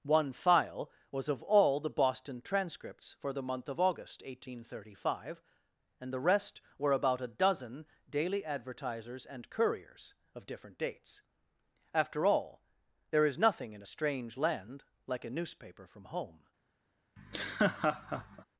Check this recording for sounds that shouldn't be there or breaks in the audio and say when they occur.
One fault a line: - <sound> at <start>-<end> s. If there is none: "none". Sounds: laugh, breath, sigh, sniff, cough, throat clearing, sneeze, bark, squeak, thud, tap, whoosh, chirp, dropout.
- laugh at 17.2-18.4 s